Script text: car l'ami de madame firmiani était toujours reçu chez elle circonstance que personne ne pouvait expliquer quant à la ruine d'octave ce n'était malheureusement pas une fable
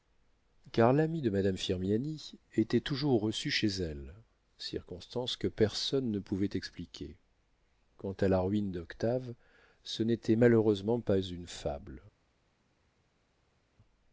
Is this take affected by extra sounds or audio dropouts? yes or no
no